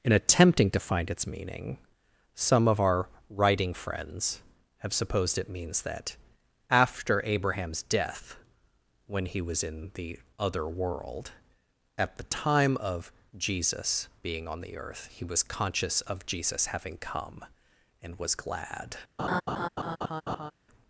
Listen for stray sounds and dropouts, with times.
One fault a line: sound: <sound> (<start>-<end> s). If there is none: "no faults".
sound: laugh (19.2-20.5 s)